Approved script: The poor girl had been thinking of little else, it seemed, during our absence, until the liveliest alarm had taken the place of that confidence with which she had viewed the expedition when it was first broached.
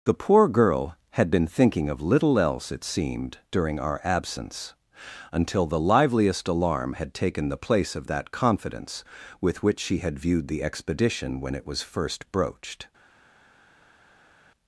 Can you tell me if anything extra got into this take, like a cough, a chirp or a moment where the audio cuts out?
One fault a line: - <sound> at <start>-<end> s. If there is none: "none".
none